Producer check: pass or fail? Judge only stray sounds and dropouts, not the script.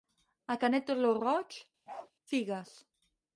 fail